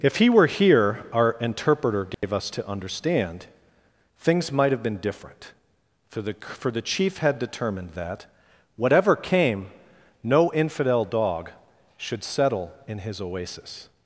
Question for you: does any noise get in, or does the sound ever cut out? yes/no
yes